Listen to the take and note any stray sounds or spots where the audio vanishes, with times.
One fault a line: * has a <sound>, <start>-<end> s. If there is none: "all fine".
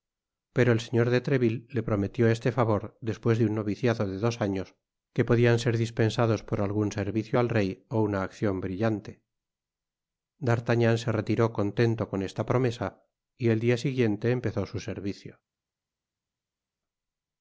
all fine